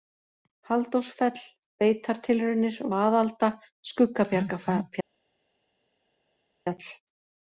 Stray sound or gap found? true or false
false